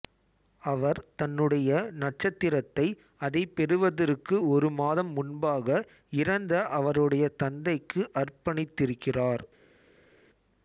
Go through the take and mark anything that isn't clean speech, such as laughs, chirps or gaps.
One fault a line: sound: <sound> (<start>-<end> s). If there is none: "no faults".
no faults